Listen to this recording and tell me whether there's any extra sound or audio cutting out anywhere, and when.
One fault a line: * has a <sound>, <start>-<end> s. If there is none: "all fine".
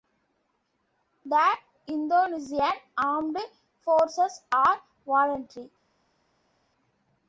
all fine